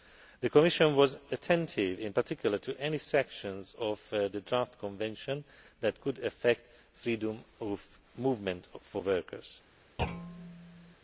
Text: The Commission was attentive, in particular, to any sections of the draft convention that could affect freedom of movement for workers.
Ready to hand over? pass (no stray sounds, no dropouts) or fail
fail